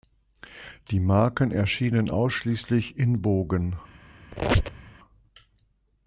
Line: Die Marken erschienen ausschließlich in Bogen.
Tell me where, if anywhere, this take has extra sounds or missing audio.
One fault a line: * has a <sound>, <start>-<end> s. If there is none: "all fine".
* has a squeak, 4.3-4.9 s